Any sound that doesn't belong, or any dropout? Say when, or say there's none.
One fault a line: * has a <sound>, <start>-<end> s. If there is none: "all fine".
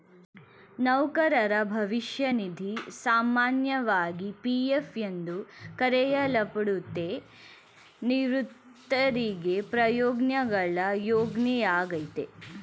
all fine